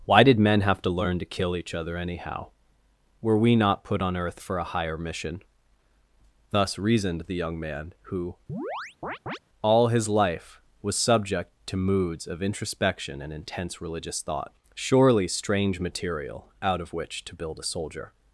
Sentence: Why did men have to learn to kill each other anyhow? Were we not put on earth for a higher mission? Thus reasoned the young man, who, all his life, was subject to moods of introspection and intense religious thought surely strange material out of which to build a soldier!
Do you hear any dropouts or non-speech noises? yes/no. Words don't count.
yes